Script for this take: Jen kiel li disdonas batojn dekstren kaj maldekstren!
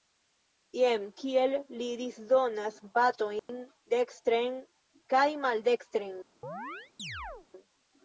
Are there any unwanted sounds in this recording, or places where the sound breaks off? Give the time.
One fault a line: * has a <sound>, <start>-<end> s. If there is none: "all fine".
* has a dropout, 3.4-3.5 s
* has a chirp, 6.4-7.5 s